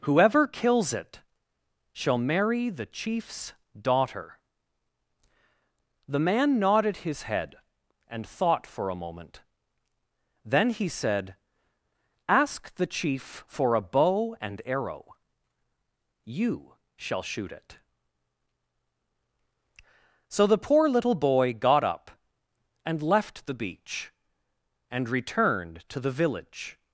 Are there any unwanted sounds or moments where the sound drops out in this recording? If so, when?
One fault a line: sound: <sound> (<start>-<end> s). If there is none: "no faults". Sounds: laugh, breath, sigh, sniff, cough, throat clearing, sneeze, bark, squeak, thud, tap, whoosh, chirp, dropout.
no faults